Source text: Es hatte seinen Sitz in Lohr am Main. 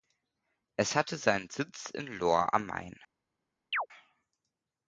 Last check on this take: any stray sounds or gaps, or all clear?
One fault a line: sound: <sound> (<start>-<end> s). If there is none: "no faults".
sound: chirp (3.7-3.9 s)